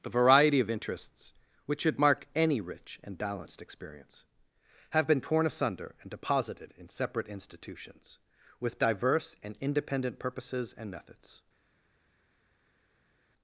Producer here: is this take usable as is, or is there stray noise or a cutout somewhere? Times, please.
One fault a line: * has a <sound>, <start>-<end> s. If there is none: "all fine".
all fine